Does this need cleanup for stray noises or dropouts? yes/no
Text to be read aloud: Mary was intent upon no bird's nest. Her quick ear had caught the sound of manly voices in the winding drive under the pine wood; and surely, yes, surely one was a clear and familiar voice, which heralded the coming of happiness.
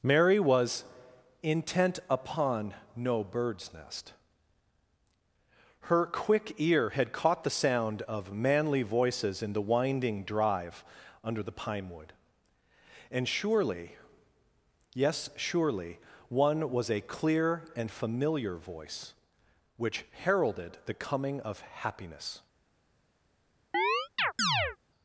yes